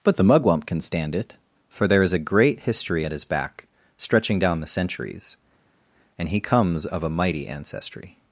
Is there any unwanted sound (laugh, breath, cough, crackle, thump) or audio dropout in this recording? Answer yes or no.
no